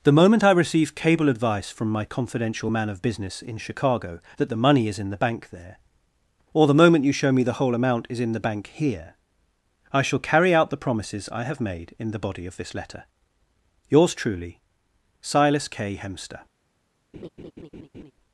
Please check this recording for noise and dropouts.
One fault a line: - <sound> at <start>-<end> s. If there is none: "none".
- laugh at 17.1-18.1 s